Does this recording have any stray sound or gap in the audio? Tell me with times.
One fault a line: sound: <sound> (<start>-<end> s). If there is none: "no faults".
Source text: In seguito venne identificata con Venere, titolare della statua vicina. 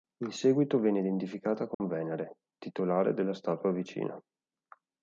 sound: dropout (1.7-1.8 s)